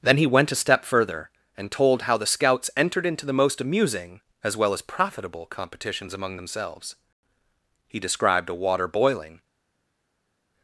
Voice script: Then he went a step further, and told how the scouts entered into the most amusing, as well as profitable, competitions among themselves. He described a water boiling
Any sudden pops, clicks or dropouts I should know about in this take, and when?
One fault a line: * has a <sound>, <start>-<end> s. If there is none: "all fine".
all fine